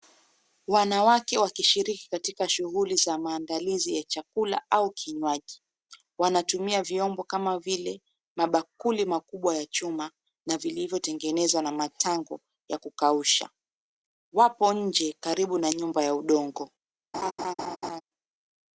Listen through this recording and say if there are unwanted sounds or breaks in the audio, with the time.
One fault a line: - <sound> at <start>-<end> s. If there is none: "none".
- laugh at 17.1-18.0 s